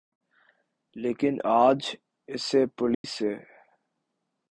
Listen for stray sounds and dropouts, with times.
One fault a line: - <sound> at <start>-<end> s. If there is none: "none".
- dropout at 2.9-3.0 s